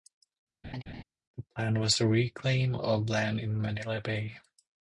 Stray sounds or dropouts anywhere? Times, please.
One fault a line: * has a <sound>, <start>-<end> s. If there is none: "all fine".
* has a laugh, 0.6-1.0 s